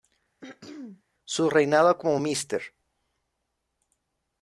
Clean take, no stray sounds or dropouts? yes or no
no